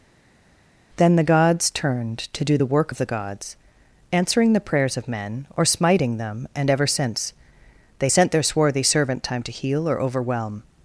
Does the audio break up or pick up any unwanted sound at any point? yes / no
no